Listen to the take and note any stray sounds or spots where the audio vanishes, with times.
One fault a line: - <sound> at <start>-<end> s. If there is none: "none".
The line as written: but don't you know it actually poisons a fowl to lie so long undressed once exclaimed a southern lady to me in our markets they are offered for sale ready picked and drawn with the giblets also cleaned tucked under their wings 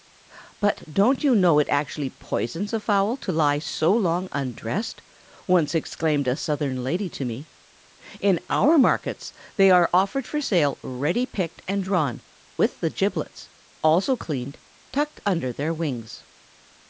none